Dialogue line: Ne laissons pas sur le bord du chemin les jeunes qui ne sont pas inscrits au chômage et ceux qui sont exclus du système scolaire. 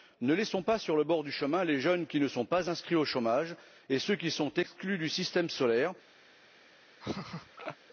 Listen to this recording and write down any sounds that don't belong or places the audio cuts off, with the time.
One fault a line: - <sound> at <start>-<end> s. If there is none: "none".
- laugh at 7.0-7.8 s